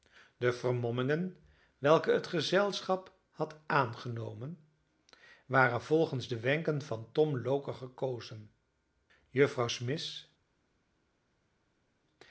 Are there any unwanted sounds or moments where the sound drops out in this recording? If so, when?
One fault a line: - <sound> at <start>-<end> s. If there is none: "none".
none